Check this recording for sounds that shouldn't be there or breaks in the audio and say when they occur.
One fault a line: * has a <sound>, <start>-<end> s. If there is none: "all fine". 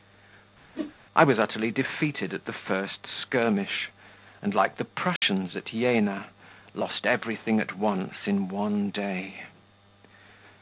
* has a whoosh, 0.7-0.9 s
* has a dropout, 5.2-5.2 s